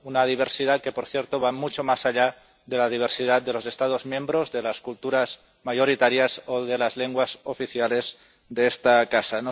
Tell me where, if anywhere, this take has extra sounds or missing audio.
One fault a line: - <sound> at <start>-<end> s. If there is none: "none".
none